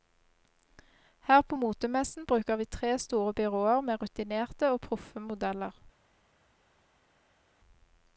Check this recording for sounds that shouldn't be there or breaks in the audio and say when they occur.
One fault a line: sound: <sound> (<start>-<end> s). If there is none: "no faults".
no faults